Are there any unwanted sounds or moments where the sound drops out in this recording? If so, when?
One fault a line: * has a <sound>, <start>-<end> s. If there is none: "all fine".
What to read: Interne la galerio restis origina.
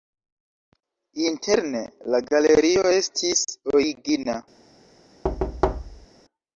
* has a thud, 5.2-6.1 s